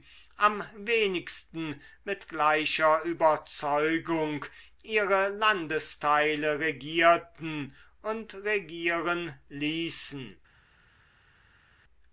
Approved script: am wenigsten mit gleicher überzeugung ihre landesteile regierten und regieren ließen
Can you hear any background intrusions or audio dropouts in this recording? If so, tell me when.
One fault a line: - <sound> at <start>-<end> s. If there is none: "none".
none